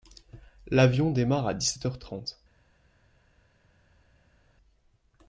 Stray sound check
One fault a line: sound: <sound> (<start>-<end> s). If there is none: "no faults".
no faults